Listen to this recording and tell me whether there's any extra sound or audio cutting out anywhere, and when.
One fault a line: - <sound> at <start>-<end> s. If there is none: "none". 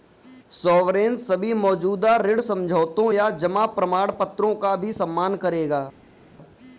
none